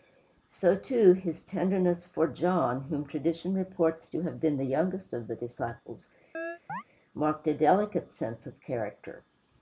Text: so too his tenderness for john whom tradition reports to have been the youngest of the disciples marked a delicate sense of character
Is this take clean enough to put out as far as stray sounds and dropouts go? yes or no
no